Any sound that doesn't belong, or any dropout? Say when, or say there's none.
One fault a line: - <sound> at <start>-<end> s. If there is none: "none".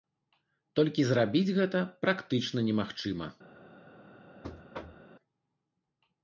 - thud at 4.4-5.1 s